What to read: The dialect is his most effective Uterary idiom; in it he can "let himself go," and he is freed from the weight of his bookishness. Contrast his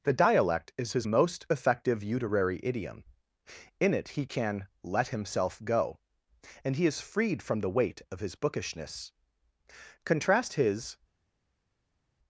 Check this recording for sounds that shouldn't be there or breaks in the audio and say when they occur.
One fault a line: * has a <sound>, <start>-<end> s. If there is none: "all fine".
all fine